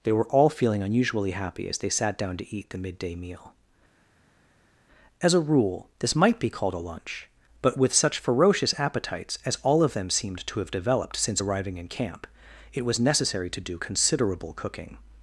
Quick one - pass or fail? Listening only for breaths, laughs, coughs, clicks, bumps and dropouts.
pass